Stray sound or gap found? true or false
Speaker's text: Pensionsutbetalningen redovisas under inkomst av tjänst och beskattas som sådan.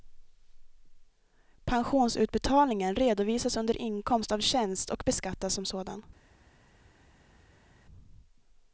false